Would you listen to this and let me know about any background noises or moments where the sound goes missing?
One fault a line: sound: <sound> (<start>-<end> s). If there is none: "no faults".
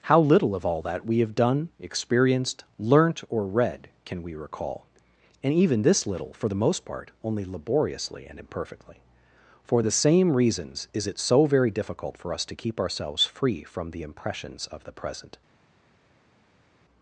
no faults